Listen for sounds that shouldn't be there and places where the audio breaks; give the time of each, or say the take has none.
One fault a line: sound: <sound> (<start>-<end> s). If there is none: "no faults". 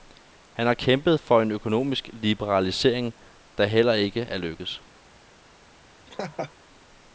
sound: laugh (6.1-6.5 s)